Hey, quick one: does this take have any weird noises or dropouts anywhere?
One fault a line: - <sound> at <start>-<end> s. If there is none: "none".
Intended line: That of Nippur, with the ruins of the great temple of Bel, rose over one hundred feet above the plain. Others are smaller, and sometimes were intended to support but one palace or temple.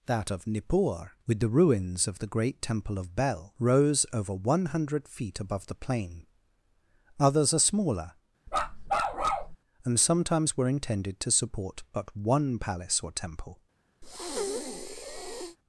- bark at 8.5-9.6 s
- breath at 14.0-15.6 s